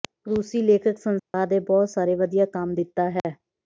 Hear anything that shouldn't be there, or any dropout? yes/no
yes